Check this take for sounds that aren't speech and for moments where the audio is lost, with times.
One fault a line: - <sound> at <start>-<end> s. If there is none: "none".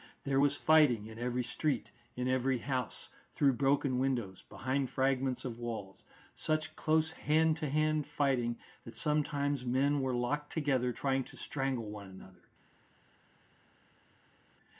none